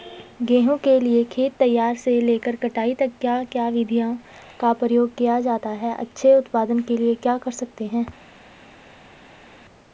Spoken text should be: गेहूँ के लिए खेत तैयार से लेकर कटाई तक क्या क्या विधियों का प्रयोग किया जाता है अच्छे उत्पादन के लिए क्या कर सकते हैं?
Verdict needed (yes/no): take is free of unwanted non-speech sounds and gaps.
yes